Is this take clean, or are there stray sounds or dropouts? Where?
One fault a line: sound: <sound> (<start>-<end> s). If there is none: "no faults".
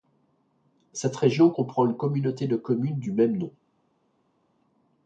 no faults